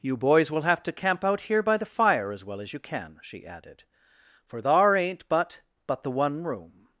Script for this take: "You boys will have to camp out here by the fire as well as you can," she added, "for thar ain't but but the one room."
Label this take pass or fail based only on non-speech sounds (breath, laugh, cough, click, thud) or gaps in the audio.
pass